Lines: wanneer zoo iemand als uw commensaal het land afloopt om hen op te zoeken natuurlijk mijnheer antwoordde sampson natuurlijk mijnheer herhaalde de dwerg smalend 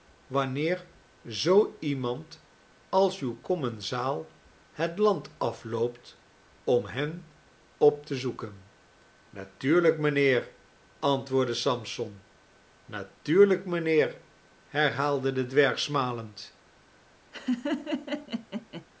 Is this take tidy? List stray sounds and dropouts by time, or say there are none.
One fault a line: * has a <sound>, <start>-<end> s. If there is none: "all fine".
* has a laugh, 17.3-18.9 s